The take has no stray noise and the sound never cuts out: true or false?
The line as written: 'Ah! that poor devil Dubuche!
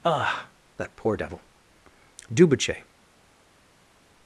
true